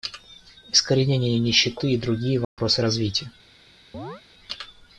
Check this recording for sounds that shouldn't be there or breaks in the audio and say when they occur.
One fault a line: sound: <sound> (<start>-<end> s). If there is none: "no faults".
sound: dropout (2.4-2.6 s)
sound: chirp (3.9-4.2 s)